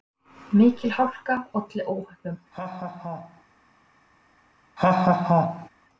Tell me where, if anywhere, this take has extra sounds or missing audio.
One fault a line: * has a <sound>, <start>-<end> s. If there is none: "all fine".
* has a laugh, 2.5-3.4 s
* has a laugh, 4.8-5.7 s